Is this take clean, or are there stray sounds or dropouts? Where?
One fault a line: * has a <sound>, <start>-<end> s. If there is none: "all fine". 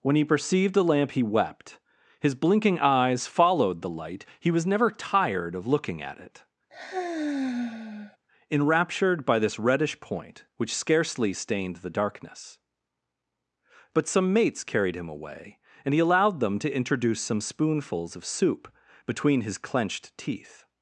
* has a sigh, 6.7-8.2 s